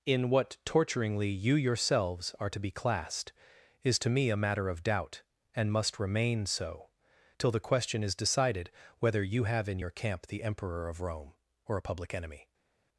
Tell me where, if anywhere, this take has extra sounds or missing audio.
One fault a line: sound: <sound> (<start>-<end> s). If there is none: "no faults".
no faults